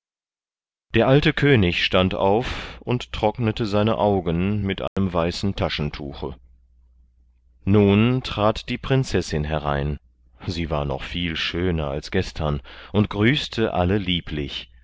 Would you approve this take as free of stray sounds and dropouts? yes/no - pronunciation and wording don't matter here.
no